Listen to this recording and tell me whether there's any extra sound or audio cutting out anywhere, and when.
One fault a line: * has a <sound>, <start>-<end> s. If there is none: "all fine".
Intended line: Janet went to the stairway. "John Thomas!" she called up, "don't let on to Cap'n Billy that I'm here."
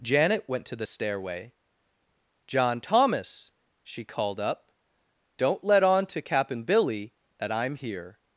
all fine